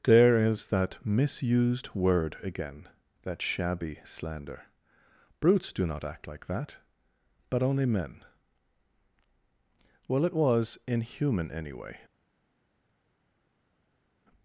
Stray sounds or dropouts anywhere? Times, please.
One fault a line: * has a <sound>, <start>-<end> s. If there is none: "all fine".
all fine